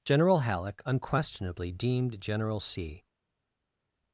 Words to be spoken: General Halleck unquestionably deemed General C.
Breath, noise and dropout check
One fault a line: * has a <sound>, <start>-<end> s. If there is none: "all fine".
all fine